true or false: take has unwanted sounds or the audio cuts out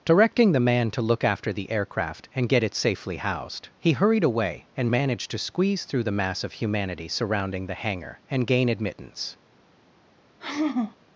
true